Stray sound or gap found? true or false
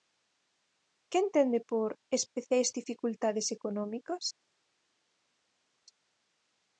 false